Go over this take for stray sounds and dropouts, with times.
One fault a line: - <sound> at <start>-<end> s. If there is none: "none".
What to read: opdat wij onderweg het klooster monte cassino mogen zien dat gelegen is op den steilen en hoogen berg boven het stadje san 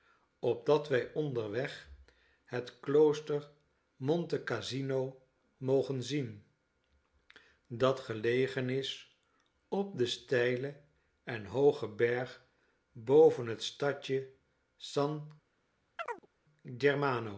- chirp at 16.0-16.3 s